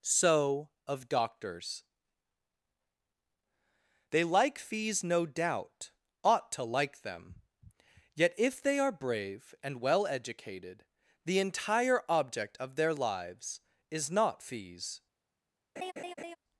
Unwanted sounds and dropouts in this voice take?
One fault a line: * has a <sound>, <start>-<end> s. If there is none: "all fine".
* has a laugh, 15.8-16.4 s